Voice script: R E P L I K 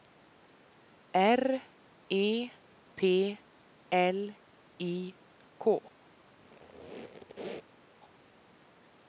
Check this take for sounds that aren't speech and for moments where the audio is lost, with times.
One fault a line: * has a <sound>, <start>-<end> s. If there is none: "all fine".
* has a squeak, 6.4-7.8 s